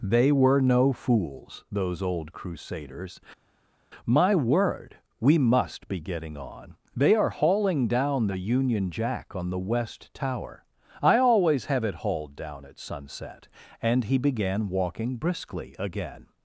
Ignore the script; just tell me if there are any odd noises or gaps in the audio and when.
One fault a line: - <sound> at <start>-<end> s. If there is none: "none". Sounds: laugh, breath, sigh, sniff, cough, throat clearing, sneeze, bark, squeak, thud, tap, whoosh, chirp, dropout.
none